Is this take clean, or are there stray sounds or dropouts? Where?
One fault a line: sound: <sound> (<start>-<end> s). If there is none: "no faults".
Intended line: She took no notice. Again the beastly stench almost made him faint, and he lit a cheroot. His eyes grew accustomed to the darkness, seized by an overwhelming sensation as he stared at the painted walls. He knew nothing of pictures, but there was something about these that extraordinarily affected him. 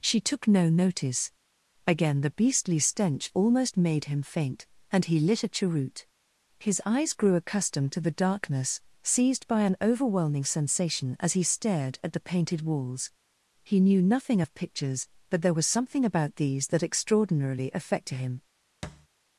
sound: thud (18.8-19.1 s)